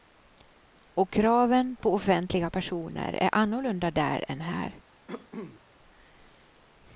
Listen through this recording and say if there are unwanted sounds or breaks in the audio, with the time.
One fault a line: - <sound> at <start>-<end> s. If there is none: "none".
- cough at 5.1-5.6 s